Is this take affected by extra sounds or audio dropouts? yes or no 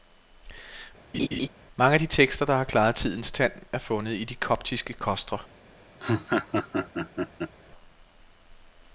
yes